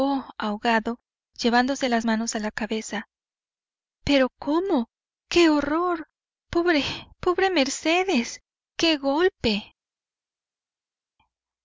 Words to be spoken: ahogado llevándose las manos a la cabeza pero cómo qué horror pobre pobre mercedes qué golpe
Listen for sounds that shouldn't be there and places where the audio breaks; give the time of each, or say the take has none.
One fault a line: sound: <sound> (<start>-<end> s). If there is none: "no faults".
no faults